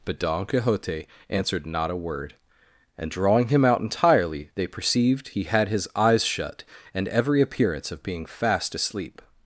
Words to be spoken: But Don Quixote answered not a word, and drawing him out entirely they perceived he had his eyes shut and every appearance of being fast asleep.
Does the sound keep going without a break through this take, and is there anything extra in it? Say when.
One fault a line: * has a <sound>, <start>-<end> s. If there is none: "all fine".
all fine